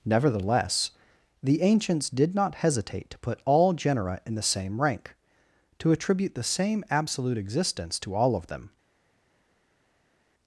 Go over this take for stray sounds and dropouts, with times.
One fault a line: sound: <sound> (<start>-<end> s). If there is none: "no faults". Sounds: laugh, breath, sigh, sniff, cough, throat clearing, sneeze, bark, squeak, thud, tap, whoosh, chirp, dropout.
no faults